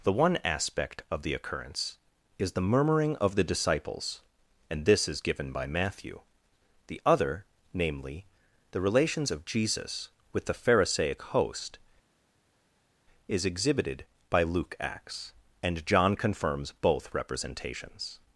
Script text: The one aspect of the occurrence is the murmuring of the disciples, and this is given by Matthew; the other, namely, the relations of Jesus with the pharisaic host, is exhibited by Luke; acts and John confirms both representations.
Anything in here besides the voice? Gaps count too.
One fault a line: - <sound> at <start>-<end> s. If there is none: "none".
none